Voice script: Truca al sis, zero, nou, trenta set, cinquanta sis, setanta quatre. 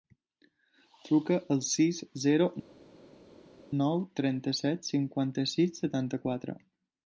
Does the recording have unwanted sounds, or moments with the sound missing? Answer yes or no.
no